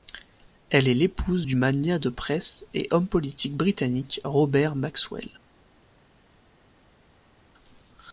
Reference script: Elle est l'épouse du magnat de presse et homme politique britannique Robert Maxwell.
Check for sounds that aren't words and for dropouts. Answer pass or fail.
pass